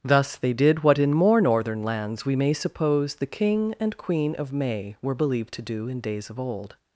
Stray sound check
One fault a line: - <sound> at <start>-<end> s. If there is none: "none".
none